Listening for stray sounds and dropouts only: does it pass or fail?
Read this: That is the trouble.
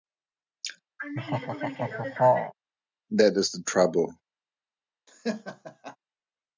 fail